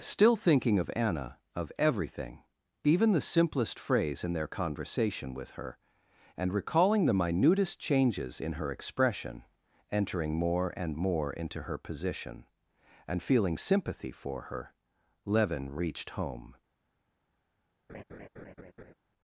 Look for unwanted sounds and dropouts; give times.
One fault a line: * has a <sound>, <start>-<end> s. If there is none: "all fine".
* has a laugh, 17.9-18.9 s